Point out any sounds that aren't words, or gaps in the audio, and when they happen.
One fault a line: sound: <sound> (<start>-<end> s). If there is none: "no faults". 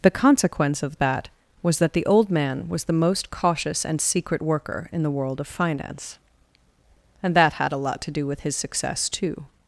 no faults